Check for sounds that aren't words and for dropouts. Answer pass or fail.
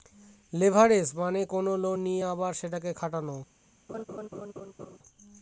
fail